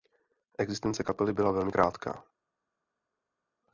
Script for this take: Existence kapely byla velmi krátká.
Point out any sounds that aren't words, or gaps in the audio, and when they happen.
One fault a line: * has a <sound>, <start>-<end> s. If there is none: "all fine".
all fine